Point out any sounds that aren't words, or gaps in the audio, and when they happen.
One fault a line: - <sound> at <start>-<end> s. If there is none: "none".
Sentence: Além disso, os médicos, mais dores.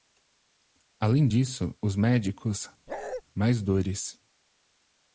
- bark at 2.9-3.2 s